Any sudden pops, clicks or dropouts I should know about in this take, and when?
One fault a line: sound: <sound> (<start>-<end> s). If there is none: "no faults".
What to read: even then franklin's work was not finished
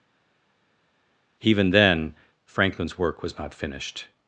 no faults